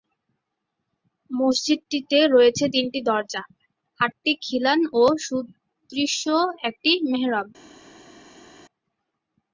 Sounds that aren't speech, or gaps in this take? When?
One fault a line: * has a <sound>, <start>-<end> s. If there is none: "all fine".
all fine